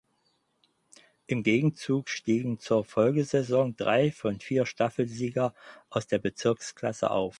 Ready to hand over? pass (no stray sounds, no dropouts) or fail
pass